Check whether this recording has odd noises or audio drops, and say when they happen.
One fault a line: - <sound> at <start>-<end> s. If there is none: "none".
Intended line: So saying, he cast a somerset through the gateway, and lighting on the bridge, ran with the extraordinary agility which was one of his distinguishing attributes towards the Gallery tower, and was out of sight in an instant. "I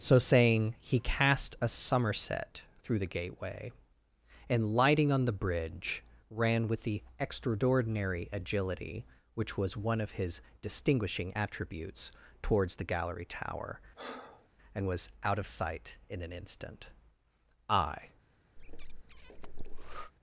- breath at 13.9-14.5 s
- breath at 18.6-20.1 s